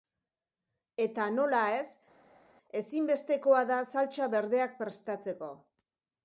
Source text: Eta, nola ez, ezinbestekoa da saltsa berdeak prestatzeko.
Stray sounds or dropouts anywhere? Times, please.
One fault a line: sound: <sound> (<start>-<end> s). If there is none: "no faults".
no faults